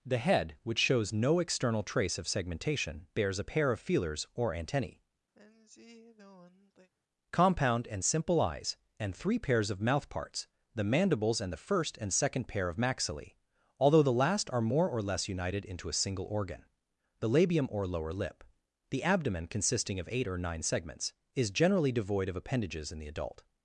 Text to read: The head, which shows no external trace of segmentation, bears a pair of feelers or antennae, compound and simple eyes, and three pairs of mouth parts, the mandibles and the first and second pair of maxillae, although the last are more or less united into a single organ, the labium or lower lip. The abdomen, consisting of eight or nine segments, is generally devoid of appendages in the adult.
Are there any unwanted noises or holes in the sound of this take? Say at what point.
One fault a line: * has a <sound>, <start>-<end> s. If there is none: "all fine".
* has a sigh, 5.3-6.9 s